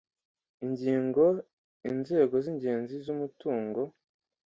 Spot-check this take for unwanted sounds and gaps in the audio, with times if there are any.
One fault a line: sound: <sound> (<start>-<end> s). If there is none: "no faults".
no faults